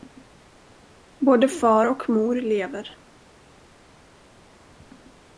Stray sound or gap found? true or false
false